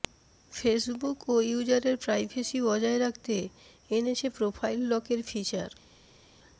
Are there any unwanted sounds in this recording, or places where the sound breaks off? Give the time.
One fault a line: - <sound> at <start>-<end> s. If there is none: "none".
none